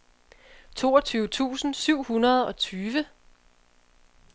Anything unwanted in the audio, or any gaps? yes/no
no